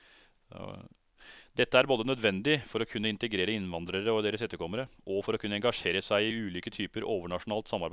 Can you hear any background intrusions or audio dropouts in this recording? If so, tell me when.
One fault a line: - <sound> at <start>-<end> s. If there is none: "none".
none